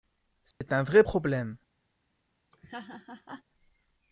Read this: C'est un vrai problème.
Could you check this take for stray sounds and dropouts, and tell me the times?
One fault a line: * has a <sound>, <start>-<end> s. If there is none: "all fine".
* has a dropout, 0.5-0.6 s
* has a laugh, 2.5-3.4 s